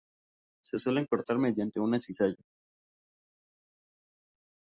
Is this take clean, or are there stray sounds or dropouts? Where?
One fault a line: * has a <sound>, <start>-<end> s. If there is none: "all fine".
all fine